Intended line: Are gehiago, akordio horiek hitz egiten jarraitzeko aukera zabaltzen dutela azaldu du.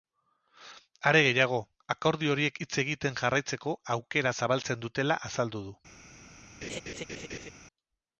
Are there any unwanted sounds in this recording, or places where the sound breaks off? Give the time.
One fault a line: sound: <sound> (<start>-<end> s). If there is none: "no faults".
sound: laugh (6.6-7.5 s)